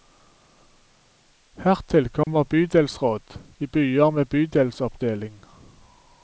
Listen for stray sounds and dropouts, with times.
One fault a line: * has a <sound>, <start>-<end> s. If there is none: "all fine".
* has a dropout, 2.2-2.3 s